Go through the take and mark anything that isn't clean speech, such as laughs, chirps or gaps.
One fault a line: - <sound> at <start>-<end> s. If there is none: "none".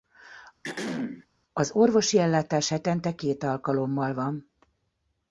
- throat clearing at 0.6-1.3 s